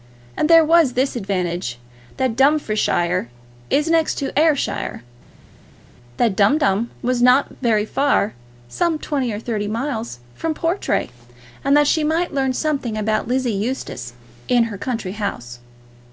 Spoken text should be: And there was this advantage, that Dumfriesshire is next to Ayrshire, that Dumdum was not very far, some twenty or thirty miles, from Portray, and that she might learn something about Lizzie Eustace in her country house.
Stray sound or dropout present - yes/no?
no